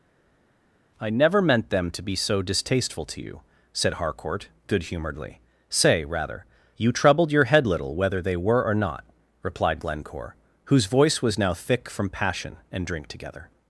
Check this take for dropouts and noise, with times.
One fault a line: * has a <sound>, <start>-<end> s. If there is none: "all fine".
all fine